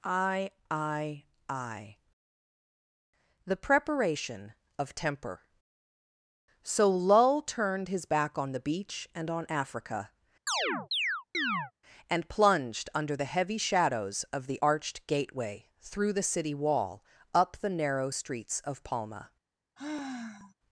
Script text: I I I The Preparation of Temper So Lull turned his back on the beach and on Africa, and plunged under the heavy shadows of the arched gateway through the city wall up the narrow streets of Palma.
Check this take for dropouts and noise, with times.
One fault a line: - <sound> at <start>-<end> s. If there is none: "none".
- chirp at 10.5-11.7 s
- sigh at 19.8-20.5 s